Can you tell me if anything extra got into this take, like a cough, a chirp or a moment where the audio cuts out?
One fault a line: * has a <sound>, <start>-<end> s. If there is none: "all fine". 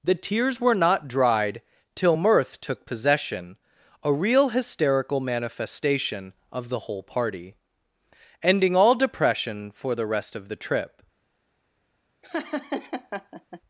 * has a laugh, 12.2-13.6 s